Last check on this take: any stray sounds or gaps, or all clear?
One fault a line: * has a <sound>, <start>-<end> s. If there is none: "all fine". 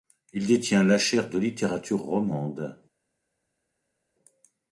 all fine